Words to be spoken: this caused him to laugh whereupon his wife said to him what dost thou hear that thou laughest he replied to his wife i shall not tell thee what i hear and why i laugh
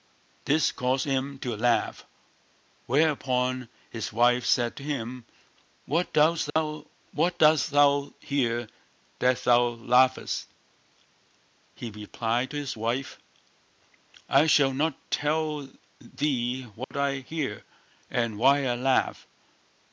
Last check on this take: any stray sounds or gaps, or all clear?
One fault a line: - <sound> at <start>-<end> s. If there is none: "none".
- dropout at 6.5-6.6 s
- dropout at 16.8-16.9 s